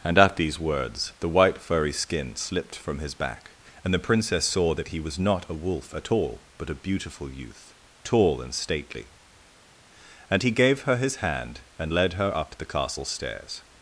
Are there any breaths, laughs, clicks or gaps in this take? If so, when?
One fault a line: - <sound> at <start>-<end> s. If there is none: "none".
none